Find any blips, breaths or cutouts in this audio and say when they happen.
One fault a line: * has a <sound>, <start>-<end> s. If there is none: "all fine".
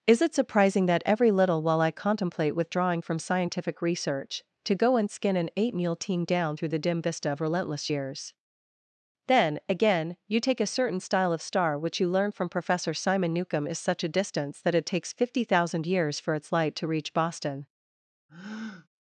* has a breath, 18.3-18.9 s